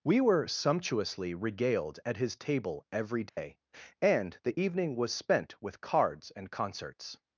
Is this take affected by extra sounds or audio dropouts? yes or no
yes